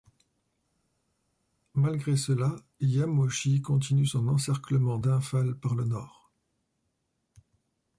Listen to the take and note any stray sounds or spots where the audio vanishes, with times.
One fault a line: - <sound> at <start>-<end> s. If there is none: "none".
none